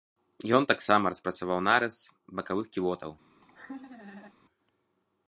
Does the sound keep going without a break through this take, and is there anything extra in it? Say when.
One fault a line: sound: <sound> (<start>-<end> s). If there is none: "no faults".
sound: laugh (3.4-4.3 s)